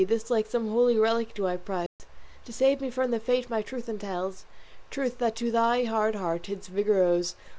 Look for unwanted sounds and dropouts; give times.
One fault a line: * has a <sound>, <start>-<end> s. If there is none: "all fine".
* has a dropout, 1.9-2.0 s